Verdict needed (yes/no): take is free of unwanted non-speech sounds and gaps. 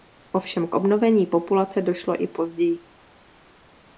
yes